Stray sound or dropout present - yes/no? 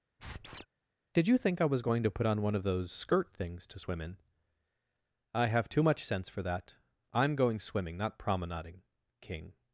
yes